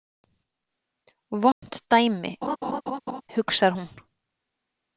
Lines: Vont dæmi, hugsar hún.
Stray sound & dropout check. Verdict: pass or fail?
fail